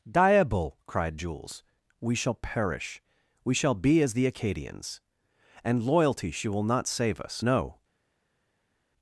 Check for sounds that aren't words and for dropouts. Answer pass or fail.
pass